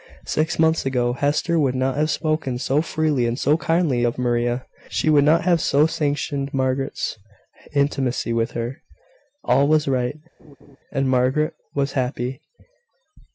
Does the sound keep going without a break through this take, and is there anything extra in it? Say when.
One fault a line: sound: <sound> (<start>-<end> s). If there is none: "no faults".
sound: laugh (10.4-10.8 s)